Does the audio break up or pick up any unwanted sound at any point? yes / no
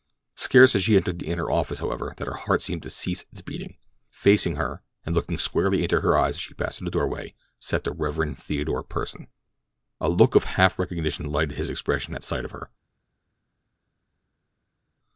no